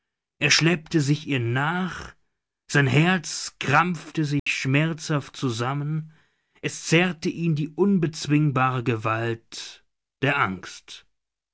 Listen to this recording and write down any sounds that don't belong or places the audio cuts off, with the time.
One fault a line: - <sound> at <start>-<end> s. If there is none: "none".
- dropout at 4.4-4.5 s